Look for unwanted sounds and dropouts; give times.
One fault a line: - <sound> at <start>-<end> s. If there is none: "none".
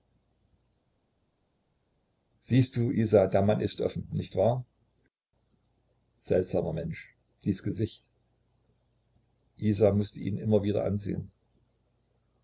none